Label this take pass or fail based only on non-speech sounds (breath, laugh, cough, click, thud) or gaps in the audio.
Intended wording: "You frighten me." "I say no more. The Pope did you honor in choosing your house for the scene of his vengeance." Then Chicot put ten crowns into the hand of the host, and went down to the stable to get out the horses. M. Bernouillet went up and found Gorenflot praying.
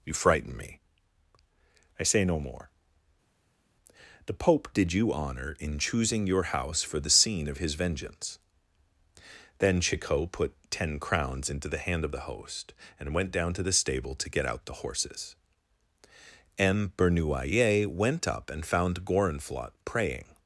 pass